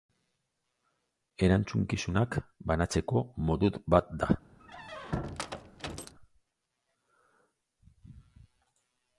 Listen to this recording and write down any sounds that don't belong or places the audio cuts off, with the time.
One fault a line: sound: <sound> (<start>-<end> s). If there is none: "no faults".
sound: squeak (4.6-6.1 s)